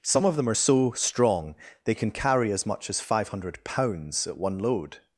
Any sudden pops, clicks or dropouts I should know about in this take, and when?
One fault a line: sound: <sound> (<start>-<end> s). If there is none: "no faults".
no faults